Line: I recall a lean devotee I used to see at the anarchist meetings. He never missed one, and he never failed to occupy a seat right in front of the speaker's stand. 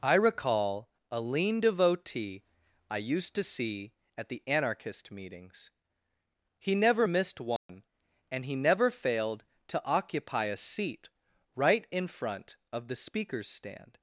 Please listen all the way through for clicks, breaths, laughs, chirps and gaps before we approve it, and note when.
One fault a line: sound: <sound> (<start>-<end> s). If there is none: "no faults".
sound: dropout (7.6-7.7 s)